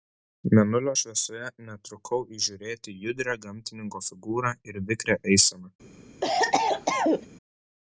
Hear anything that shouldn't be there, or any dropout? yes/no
yes